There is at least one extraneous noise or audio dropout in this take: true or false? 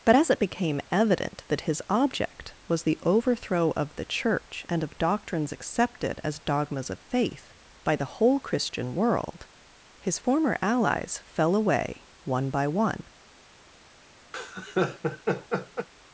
true